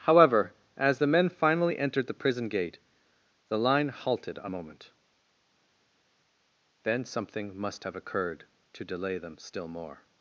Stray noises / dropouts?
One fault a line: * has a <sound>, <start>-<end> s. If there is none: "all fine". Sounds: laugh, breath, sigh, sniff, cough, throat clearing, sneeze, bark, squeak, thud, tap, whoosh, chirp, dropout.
all fine